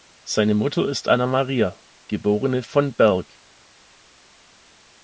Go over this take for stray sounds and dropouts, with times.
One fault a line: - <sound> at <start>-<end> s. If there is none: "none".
none